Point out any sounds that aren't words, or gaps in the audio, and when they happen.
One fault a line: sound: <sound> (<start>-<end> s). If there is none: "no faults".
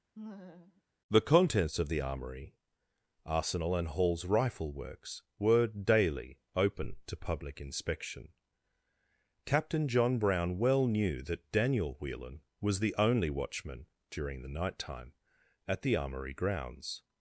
sound: laugh (0.2-0.8 s)